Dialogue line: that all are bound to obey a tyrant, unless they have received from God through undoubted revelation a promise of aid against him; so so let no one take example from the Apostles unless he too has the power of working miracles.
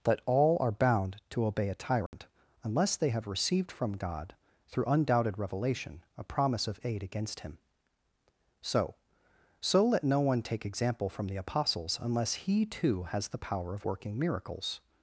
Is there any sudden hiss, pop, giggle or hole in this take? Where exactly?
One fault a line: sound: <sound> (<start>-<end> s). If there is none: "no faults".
sound: dropout (2.1-2.1 s)